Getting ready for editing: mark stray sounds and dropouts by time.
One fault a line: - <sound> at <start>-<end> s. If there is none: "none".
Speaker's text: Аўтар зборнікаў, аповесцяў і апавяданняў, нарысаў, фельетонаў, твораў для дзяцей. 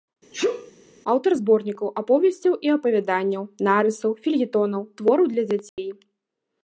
- sneeze at 0.3-0.7 s
- dropout at 5.7-5.8 s